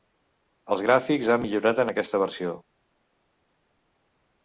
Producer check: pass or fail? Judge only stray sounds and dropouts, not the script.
pass